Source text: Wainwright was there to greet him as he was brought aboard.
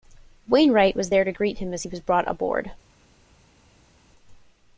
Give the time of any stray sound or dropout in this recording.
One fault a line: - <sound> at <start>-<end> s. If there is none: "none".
none